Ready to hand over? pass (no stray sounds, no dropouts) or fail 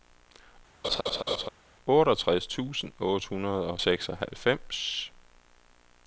fail